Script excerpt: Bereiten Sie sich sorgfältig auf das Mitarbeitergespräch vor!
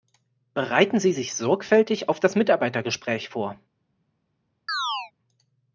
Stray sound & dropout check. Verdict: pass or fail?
fail